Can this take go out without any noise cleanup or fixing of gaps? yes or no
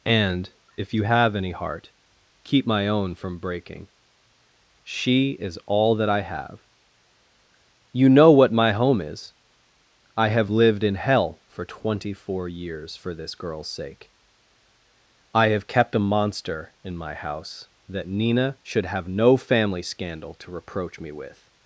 yes